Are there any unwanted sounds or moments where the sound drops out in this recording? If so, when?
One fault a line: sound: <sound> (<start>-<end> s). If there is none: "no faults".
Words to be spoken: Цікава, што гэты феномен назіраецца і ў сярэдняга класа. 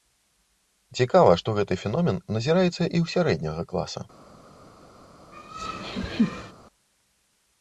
sound: laugh (5.3-6.5 s)